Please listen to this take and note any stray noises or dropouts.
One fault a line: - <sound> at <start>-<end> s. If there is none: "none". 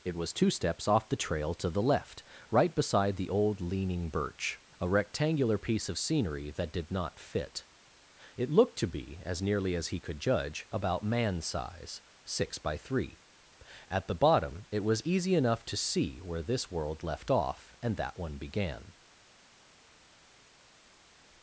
none